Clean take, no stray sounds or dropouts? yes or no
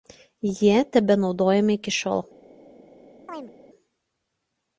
no